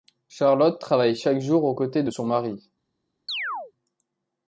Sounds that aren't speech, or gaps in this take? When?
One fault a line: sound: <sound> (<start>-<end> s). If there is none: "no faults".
sound: chirp (3.3-3.7 s)